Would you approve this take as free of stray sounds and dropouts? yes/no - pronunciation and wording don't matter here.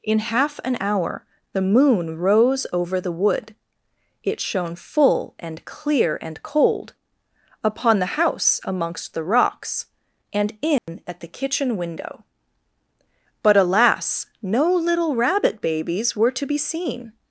no